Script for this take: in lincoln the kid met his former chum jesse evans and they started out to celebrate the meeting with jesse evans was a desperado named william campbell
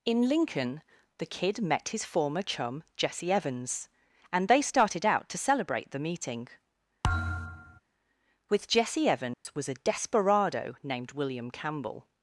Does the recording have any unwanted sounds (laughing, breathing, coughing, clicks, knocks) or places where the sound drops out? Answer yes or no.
yes